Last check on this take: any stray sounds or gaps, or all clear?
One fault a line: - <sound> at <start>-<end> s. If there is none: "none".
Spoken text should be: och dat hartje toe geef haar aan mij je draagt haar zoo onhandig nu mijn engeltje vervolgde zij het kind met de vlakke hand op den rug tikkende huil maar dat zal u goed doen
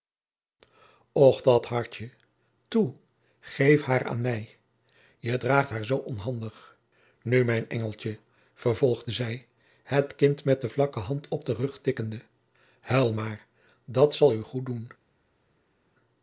none